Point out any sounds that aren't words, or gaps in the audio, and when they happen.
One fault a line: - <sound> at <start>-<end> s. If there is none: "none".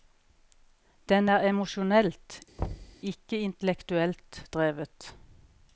- thud at 2.6-3.0 s